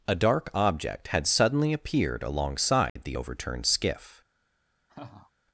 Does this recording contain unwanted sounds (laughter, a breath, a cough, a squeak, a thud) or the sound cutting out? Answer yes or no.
yes